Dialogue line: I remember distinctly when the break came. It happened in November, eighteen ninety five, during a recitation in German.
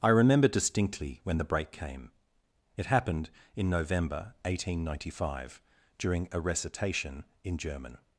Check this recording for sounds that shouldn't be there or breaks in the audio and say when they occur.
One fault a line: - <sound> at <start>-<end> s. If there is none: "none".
none